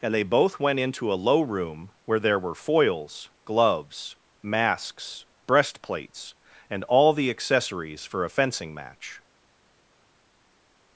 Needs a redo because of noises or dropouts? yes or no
no